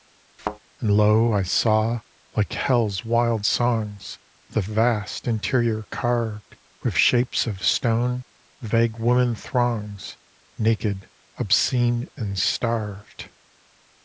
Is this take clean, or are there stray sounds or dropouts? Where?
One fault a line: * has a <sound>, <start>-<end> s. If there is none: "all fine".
* has a thud, 0.4-0.6 s